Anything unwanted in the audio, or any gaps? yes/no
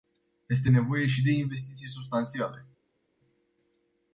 no